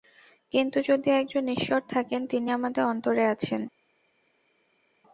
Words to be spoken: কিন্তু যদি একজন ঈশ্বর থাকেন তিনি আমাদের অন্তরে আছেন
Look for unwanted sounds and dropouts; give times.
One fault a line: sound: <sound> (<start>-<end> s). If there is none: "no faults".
no faults